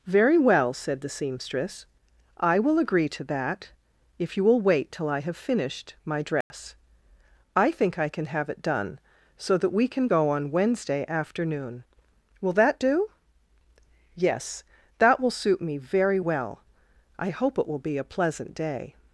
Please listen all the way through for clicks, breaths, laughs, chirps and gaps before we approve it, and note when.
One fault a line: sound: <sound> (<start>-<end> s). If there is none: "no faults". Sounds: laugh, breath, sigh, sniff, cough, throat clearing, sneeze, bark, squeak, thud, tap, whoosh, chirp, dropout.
sound: dropout (6.4-6.5 s)